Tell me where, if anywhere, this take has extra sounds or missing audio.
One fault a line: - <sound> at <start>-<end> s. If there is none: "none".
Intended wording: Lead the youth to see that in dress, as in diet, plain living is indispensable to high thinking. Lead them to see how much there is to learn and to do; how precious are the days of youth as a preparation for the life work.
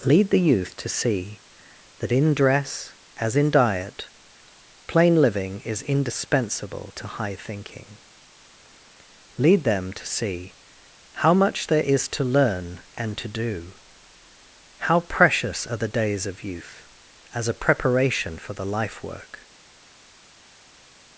none